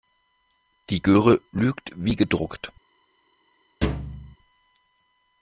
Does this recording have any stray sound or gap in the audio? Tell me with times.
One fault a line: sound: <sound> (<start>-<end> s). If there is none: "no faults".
sound: thud (3.8-4.4 s)